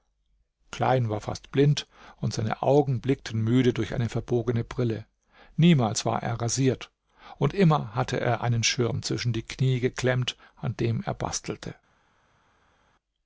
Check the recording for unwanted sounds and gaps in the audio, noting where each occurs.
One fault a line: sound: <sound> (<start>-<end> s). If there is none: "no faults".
no faults